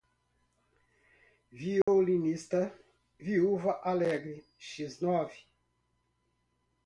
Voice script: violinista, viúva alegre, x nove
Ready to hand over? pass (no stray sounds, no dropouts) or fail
fail